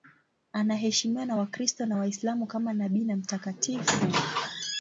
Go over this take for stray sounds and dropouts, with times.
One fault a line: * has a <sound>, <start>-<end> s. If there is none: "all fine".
all fine